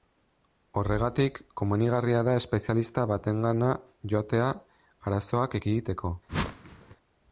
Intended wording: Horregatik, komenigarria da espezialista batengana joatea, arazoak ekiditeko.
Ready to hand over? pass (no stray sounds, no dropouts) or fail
fail